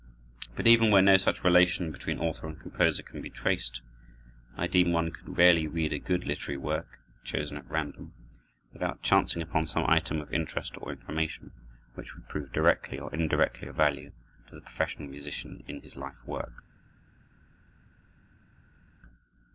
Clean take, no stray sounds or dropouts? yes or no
yes